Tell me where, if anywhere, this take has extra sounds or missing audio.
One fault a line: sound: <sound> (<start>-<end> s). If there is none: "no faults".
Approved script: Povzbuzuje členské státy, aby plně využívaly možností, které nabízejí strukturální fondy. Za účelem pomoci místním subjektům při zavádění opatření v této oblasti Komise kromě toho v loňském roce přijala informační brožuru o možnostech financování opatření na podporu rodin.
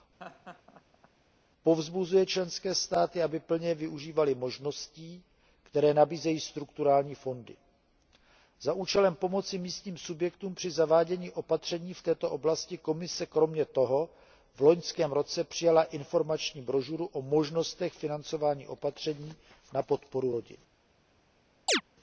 sound: laugh (0.2-1.1 s)
sound: chirp (21.7-21.8 s)